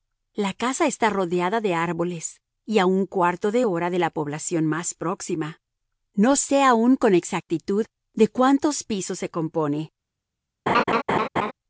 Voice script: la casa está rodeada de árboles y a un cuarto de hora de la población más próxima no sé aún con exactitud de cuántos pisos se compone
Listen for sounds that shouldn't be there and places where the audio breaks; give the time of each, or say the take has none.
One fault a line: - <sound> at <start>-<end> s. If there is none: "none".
- laugh at 10.7-11.5 s